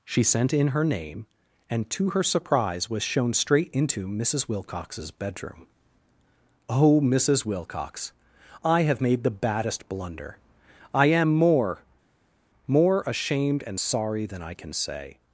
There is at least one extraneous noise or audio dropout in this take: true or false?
false